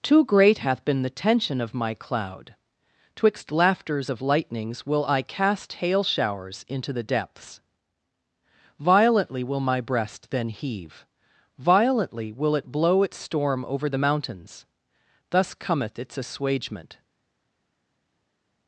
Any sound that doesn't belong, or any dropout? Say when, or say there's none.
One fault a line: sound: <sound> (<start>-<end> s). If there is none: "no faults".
no faults